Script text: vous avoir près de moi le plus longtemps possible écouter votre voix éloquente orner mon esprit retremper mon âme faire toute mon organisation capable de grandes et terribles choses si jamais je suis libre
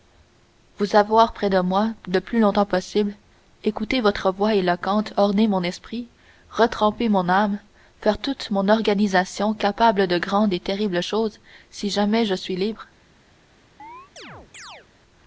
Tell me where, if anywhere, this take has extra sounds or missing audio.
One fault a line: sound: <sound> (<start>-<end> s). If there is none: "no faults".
sound: chirp (13.8-14.9 s)